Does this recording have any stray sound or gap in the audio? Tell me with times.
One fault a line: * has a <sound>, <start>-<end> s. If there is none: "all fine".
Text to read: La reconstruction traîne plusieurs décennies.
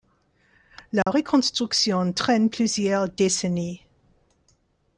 * has a dropout, 1.0-1.1 s